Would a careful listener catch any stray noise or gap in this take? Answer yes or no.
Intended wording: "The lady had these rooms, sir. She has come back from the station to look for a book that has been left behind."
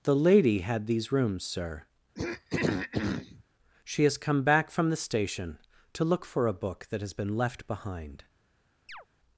yes